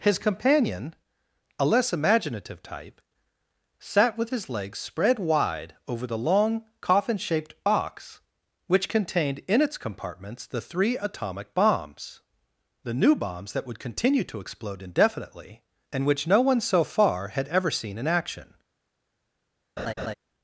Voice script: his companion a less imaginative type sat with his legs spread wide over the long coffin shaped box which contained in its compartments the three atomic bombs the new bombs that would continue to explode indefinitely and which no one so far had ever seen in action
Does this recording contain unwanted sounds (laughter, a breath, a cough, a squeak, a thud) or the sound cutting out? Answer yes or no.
yes